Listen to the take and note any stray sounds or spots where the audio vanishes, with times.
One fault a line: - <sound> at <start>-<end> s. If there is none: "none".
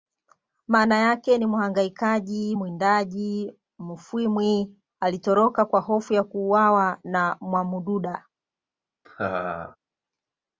- laugh at 9.0-9.8 s